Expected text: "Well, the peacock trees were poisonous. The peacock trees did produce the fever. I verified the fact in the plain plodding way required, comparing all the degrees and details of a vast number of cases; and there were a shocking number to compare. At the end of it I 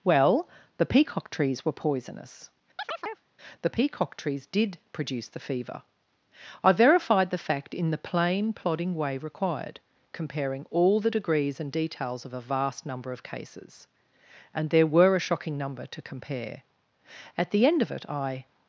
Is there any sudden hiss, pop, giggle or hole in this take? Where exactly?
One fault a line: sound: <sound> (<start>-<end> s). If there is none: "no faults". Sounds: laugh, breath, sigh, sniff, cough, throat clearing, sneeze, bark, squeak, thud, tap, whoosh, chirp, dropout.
sound: chirp (2.8-3.3 s)